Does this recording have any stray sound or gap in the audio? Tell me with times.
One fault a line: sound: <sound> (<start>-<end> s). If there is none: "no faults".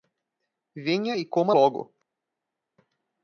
no faults